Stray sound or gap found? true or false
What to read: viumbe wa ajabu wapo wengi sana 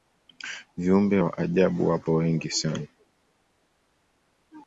false